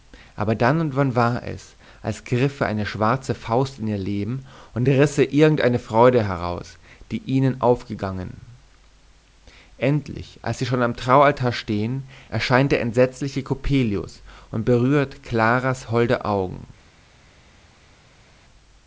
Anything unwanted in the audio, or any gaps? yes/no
no